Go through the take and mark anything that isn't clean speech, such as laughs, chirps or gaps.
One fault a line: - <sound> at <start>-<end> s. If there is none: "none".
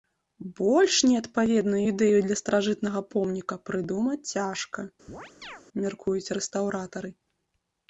- chirp at 5.1-5.6 s